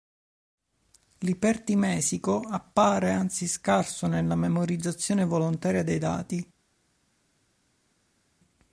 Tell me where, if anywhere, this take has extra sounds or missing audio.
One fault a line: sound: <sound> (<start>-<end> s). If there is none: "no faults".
no faults